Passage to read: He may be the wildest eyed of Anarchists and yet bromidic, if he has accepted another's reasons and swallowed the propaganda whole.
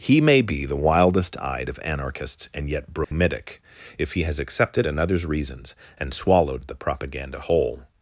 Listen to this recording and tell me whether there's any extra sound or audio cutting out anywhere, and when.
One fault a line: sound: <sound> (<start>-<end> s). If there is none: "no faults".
sound: dropout (3.0-3.1 s)